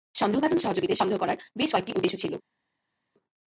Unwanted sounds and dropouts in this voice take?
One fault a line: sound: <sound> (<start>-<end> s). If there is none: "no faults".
no faults